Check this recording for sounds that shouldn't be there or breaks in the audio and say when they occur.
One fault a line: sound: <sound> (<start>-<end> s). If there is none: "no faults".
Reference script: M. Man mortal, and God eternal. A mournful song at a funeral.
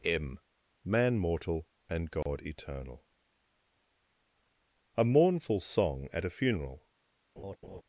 sound: dropout (2.2-2.3 s)
sound: laugh (7.4-7.8 s)